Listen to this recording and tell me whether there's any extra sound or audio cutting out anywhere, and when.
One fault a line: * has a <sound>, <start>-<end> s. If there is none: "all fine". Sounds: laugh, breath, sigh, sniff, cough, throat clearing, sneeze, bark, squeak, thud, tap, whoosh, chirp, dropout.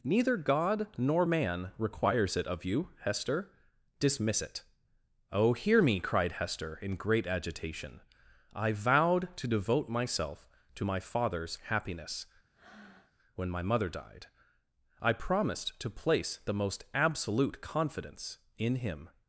* has a breath, 12.5-13.1 s